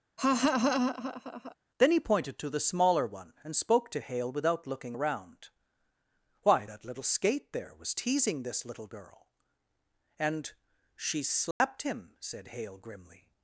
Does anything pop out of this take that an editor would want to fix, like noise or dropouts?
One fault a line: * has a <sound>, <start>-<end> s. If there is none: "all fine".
* has a laugh, 0.2-1.6 s
* has a dropout, 11.5-11.6 s